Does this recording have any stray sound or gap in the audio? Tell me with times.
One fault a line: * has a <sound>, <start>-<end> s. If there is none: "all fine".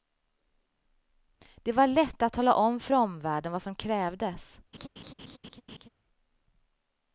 * has a laugh, 4.7-5.9 s